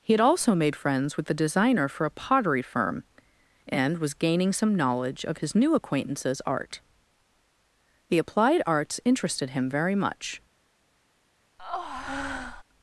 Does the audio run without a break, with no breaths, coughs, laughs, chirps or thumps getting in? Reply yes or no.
no